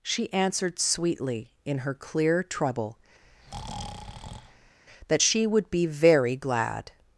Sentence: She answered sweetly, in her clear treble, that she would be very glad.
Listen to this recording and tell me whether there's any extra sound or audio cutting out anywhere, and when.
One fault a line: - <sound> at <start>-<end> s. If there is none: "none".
- breath at 3.2-4.8 s